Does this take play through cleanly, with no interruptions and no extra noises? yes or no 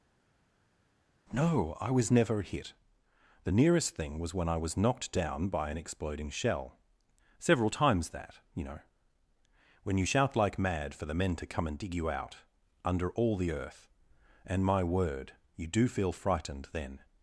yes